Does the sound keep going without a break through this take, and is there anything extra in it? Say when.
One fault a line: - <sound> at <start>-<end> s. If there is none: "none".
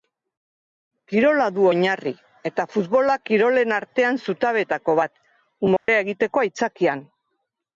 - dropout at 5.8-5.9 s